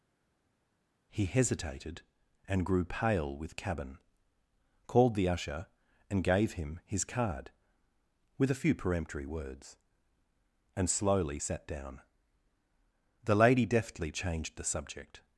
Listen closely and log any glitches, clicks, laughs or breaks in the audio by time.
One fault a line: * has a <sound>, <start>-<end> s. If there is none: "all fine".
all fine